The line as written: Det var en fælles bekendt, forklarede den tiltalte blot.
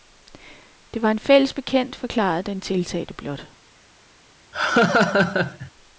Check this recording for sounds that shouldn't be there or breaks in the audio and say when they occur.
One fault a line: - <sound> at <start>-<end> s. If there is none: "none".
- laugh at 4.5-5.7 s